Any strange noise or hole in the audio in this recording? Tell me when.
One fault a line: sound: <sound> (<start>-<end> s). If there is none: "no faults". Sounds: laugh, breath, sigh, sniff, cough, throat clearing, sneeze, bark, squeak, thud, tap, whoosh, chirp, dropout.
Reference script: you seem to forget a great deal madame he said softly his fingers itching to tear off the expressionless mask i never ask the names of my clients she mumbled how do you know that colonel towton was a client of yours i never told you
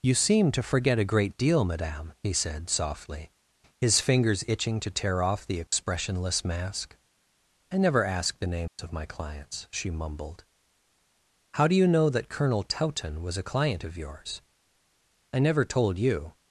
sound: dropout (5.7-5.7 s)
sound: dropout (8.7-8.8 s)